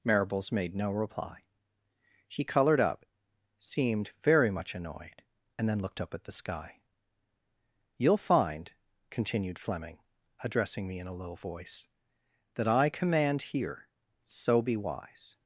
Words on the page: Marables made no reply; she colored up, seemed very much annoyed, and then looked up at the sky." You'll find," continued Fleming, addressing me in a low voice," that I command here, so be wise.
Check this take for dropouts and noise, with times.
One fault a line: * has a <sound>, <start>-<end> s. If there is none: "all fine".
all fine